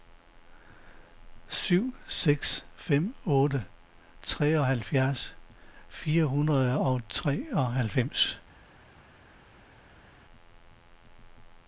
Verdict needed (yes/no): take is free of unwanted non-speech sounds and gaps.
yes